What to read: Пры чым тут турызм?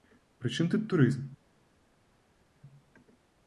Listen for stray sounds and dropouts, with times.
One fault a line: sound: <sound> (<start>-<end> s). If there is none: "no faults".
no faults